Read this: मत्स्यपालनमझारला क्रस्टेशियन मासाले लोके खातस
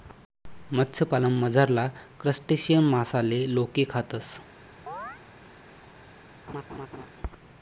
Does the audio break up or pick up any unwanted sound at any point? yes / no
yes